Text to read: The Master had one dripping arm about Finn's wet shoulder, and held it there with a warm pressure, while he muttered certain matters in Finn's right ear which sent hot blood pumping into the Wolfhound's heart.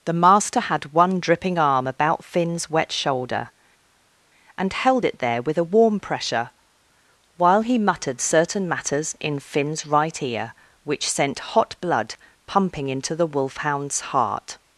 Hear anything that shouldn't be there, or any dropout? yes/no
no